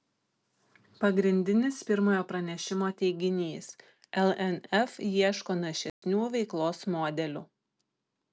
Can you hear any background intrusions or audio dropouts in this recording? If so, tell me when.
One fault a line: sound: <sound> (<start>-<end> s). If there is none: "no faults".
sound: dropout (5.9-6.0 s)